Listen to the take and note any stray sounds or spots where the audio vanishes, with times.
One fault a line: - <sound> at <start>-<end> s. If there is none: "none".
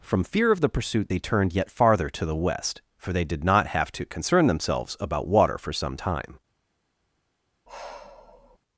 - sigh at 7.7-8.6 s